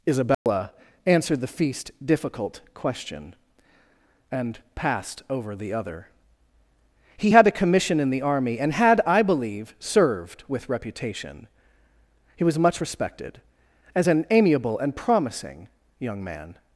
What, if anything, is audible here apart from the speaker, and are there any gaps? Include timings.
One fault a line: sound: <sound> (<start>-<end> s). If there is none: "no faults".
sound: dropout (0.3-0.5 s)